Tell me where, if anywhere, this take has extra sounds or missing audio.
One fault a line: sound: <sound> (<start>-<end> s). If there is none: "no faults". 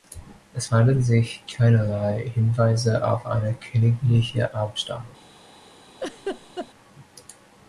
sound: laugh (6.0-6.7 s)